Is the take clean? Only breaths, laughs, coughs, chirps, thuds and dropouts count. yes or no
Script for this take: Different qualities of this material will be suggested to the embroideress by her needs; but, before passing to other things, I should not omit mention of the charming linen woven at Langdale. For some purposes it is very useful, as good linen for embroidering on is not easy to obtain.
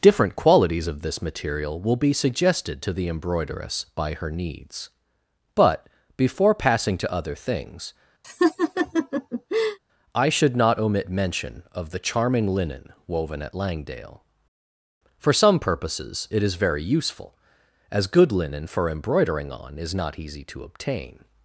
no